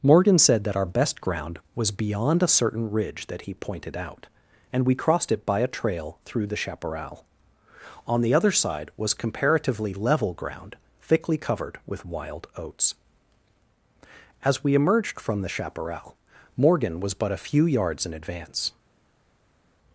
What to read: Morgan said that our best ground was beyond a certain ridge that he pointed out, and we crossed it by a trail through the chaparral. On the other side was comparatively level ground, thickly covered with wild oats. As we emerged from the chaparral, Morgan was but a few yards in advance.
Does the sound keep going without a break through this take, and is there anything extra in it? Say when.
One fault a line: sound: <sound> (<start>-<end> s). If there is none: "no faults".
no faults